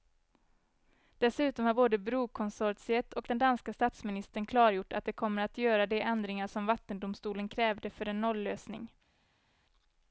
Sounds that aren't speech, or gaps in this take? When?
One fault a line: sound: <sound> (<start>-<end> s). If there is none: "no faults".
no faults